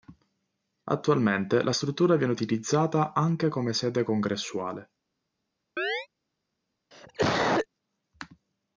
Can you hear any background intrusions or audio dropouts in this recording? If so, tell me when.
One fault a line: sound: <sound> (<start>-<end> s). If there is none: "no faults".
sound: chirp (5.8-6.1 s)
sound: cough (6.9-7.7 s)